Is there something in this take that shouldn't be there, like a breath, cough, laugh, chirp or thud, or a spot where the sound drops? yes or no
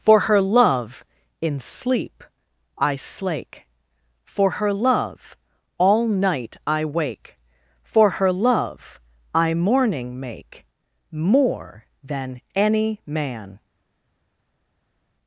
no